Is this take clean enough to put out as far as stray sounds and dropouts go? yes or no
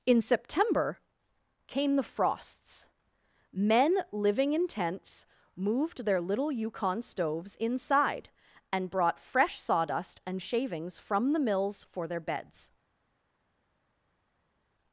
yes